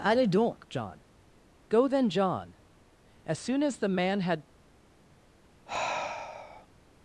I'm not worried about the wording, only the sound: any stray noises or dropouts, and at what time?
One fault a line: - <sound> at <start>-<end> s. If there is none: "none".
- sigh at 5.7-6.7 s